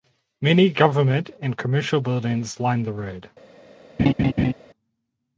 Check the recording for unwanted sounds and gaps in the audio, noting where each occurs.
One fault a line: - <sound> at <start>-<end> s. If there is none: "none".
- laugh at 4.0-4.5 s